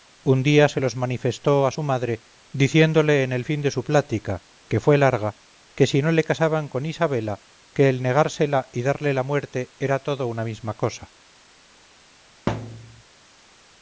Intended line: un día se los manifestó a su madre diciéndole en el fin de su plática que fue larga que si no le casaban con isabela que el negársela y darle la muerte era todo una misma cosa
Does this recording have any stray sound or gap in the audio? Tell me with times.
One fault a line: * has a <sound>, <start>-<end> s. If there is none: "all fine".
* has a thud, 12.5-13.0 s